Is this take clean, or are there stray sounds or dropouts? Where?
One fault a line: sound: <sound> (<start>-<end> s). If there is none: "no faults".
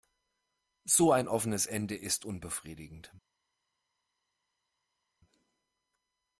no faults